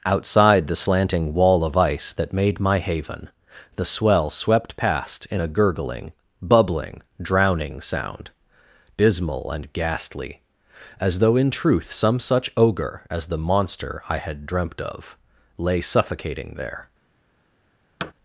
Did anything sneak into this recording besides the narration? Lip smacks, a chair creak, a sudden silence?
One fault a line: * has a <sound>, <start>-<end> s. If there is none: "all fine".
* has a thud, 18.0-18.1 s